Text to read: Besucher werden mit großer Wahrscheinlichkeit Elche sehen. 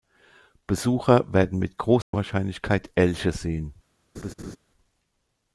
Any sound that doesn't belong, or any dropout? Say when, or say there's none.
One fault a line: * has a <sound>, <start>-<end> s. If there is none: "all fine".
* has a dropout, 2.0-2.1 s
* has a laugh, 4.1-4.6 s